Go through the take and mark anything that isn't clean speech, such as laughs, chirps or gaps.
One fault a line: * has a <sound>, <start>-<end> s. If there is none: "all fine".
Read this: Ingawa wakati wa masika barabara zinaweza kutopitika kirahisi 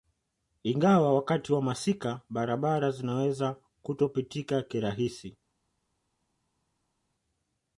all fine